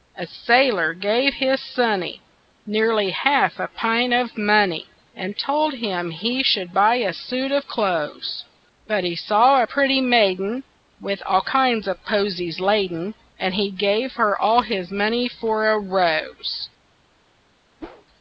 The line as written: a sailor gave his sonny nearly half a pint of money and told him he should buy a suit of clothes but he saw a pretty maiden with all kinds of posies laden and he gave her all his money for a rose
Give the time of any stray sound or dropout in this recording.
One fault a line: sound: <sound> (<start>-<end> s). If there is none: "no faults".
sound: whoosh (17.8-18.1 s)